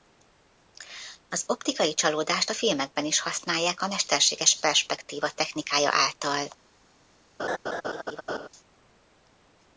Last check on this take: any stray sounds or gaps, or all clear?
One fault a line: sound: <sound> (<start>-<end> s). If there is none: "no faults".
sound: laugh (7.4-8.5 s)